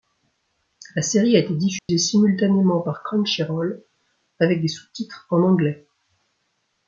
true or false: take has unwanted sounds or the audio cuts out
true